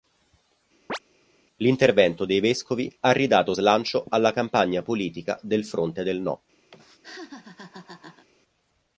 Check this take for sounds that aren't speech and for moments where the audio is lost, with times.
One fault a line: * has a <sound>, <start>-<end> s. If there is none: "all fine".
* has a chirp, 0.9-1.0 s
* has a laugh, 6.7-8.3 s